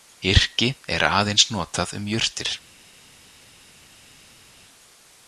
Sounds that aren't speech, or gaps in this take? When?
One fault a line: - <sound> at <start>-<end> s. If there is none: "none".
none